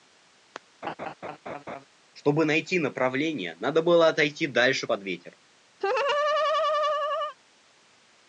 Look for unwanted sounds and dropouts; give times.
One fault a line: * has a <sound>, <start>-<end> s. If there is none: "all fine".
* has a laugh, 0.8-1.8 s
* has a laugh, 5.8-7.4 s